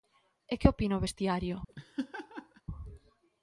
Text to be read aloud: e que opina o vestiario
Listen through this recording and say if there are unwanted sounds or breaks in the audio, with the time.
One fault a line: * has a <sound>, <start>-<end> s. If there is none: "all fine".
* has a laugh, 1.7-2.6 s